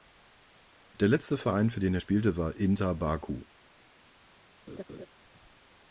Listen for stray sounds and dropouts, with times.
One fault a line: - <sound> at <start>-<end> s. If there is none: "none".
- laugh at 4.7-5.1 s